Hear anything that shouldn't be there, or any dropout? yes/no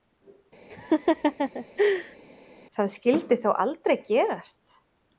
yes